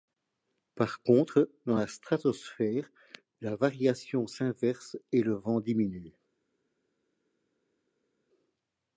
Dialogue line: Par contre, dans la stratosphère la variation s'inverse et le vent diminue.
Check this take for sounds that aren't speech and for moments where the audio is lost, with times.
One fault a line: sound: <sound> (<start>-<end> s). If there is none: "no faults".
no faults